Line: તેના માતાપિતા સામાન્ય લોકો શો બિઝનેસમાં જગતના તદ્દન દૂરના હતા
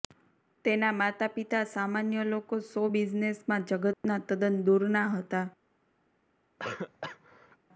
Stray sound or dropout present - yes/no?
yes